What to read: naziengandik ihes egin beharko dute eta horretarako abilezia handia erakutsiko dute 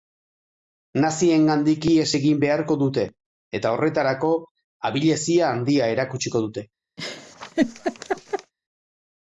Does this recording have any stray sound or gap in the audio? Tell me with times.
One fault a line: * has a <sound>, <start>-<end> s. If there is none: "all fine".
* has a laugh, 7.0-8.5 s